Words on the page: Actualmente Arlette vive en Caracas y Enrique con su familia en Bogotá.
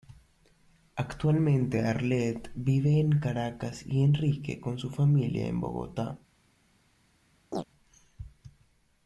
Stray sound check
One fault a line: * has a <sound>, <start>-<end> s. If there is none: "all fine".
* has a chirp, 7.5-7.6 s